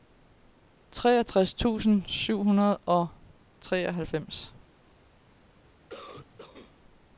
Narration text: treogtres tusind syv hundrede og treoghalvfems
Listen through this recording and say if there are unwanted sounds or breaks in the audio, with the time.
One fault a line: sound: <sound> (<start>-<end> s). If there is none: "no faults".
sound: cough (5.9-6.8 s)